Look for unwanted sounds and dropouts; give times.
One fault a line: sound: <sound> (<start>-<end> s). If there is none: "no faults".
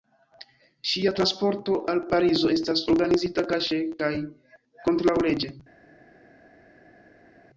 no faults